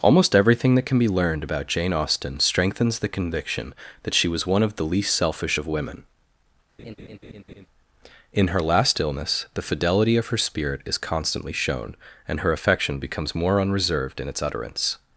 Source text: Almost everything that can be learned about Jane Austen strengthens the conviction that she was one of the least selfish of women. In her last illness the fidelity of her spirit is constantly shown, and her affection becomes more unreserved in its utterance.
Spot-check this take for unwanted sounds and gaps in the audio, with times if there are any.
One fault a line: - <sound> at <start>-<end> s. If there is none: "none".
- laugh at 6.8-7.7 s